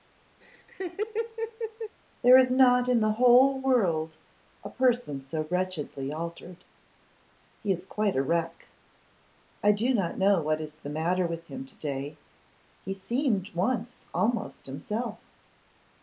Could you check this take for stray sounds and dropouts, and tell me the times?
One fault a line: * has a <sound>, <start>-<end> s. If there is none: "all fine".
* has a laugh, 0.4-2.0 s